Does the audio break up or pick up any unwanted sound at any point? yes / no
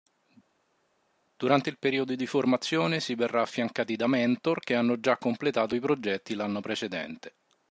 no